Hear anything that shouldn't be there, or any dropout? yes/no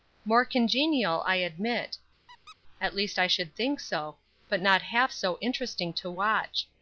yes